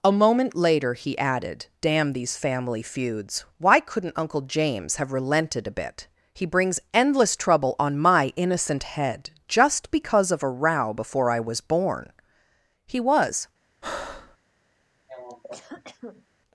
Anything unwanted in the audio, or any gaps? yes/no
yes